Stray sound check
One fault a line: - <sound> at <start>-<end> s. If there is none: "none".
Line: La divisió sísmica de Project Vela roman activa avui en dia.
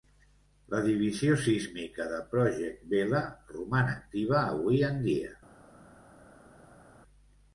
none